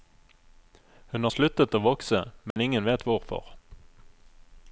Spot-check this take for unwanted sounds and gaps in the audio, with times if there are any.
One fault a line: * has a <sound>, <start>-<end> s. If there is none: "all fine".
* has a dropout, 2.5-2.6 s